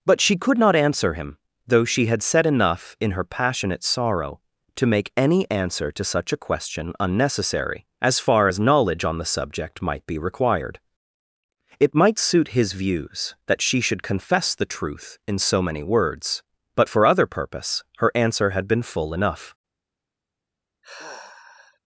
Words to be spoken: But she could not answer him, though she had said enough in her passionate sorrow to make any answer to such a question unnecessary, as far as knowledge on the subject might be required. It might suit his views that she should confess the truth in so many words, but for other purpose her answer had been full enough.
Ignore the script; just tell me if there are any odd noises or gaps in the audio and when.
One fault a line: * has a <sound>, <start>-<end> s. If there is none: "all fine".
* has a sigh, 20.8-21.8 s